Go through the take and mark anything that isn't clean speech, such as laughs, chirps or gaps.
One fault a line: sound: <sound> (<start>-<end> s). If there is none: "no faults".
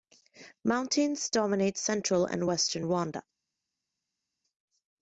no faults